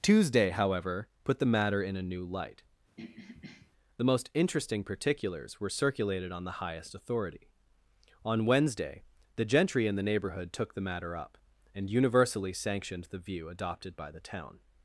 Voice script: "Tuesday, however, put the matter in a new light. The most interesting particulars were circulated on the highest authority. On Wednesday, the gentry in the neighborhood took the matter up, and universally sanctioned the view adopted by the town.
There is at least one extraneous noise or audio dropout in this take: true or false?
true